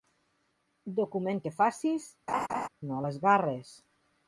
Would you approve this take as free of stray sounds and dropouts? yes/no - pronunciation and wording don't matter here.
no